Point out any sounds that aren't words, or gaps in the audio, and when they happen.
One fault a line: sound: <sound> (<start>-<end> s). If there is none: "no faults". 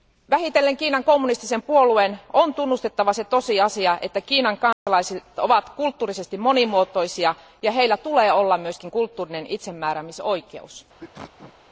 sound: dropout (4.7-4.9 s)
sound: sneeze (11.0-11.6 s)